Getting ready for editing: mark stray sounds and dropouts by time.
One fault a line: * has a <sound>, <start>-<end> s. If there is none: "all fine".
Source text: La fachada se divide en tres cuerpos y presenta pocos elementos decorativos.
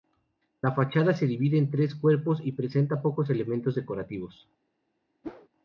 * has a whoosh, 5.2-5.5 s